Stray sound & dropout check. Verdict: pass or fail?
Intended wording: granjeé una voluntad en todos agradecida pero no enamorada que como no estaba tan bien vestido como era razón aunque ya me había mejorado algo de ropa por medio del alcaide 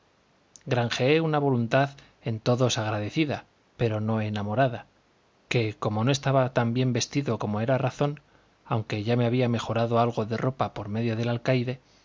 pass